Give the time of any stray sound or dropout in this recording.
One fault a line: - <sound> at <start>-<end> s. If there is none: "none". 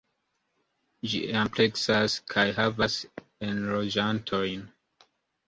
none